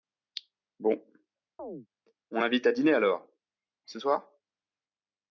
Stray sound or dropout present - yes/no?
yes